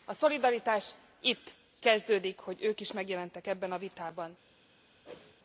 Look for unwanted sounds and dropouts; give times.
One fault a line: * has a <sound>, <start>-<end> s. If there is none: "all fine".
* has a whoosh, 5.1-5.3 s